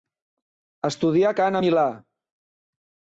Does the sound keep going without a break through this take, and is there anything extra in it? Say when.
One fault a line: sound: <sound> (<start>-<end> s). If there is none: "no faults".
no faults